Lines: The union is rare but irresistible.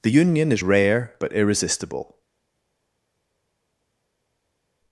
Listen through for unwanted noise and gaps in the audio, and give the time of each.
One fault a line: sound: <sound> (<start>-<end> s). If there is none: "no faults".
no faults